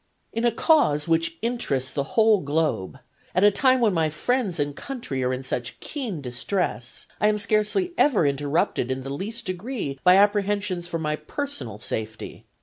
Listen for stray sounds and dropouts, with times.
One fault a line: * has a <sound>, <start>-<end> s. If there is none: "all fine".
all fine